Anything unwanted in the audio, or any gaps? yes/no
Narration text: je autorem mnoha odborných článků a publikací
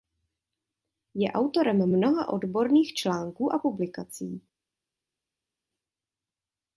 no